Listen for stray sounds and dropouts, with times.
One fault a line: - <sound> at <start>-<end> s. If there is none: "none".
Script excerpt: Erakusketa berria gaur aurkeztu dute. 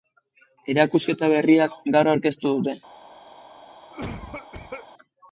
- cough at 3.9-4.9 s